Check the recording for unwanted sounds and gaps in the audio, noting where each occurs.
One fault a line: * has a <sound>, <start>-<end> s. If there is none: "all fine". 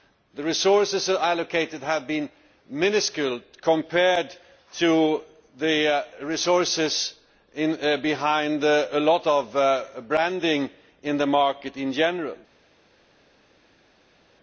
all fine